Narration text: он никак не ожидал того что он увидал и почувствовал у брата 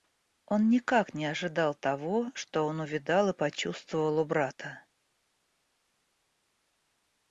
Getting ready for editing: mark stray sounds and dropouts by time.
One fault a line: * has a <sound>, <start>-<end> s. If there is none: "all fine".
all fine